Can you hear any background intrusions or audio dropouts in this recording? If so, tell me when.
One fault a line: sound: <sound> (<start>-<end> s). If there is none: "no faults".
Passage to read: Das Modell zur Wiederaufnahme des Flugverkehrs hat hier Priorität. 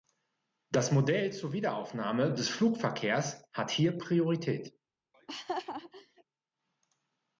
sound: laugh (5.1-6.2 s)